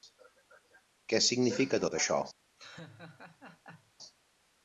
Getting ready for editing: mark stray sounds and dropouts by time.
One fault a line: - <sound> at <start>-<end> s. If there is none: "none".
- laugh at 2.6-3.9 s